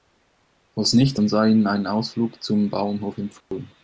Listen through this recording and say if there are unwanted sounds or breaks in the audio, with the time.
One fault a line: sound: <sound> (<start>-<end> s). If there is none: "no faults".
sound: dropout (3.4-3.5 s)